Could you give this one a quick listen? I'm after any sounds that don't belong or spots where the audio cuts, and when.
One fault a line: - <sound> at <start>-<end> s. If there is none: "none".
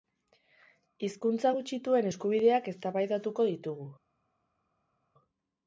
none